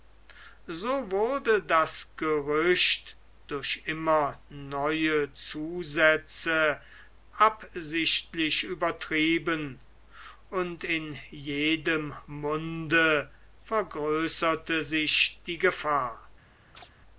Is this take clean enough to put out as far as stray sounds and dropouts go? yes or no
no